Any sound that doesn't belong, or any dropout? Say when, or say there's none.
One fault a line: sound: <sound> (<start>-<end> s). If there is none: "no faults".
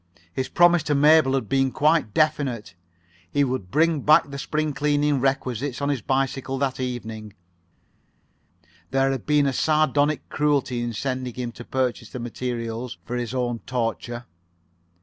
no faults